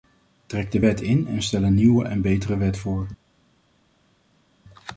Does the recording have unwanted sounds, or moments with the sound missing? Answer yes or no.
no